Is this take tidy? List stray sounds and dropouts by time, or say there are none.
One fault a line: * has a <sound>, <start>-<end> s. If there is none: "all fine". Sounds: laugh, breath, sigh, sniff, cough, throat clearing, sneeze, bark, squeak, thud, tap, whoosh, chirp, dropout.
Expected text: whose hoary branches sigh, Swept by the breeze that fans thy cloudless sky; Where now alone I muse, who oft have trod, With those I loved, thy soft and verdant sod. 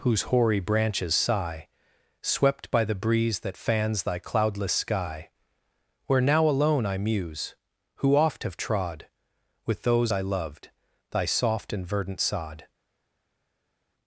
all fine